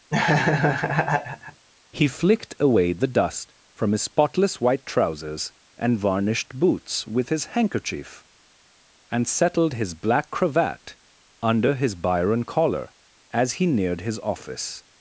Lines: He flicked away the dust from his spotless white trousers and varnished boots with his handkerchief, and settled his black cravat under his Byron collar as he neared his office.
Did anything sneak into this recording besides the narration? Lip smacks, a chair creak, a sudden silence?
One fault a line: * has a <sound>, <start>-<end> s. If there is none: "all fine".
* has a laugh, 0.1-1.6 s